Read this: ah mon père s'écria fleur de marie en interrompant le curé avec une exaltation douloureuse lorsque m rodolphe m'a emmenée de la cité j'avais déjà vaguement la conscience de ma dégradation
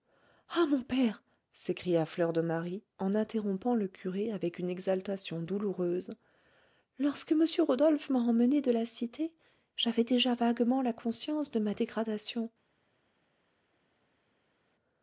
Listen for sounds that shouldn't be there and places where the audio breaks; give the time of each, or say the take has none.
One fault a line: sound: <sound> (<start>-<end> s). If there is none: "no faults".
no faults